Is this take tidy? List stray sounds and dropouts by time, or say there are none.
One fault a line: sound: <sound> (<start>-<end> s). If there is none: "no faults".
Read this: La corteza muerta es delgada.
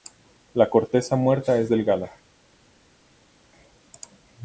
no faults